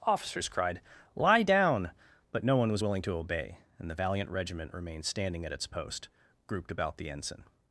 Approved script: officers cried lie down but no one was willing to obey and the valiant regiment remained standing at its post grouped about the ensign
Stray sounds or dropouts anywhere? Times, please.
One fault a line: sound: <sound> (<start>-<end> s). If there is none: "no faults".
no faults